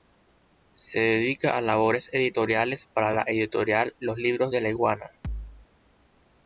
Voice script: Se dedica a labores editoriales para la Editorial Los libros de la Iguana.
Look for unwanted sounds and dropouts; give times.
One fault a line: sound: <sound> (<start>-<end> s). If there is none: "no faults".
sound: thud (5.2-5.7 s)